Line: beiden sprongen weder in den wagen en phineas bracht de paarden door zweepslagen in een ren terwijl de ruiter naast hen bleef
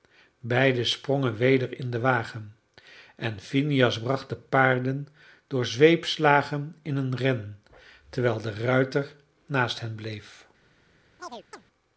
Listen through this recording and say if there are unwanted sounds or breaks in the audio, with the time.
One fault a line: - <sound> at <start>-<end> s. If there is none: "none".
- chirp at 11.2-11.7 s